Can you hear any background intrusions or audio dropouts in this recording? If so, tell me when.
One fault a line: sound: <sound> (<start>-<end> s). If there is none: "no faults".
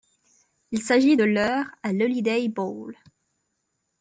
no faults